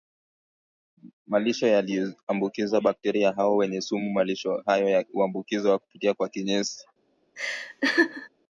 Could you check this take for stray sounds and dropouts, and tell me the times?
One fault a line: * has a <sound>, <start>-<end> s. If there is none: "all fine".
* has a laugh, 7.4-8.3 s